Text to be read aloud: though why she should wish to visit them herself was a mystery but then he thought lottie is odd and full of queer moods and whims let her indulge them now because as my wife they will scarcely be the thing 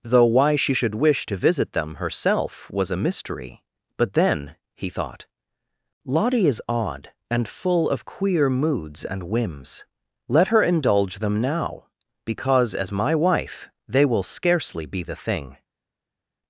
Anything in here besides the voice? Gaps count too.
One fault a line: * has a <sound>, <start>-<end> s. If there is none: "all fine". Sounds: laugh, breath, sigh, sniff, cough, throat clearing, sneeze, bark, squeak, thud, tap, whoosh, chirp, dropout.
all fine